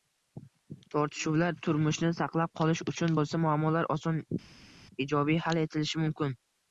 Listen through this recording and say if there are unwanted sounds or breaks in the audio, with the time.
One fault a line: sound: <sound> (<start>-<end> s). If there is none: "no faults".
no faults